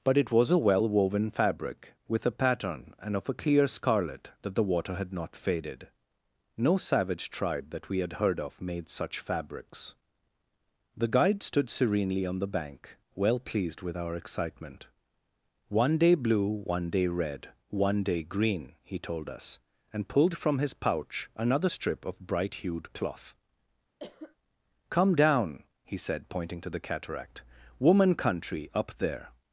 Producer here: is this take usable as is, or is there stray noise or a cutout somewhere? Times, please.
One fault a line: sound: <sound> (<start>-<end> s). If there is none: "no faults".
sound: cough (24.0-24.4 s)